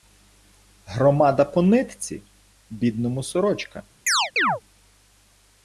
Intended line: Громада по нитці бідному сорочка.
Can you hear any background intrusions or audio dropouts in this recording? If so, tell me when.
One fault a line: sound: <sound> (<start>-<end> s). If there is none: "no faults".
sound: chirp (4.1-4.6 s)